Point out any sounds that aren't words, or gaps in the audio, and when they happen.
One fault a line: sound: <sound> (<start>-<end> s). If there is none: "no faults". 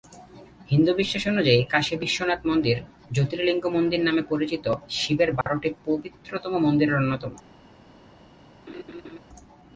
sound: dropout (5.4-5.5 s)
sound: laugh (8.7-9.2 s)